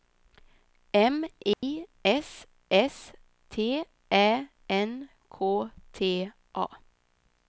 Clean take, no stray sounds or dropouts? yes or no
no